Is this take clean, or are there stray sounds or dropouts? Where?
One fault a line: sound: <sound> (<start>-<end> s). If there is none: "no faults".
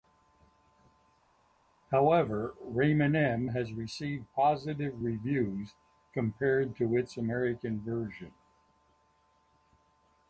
no faults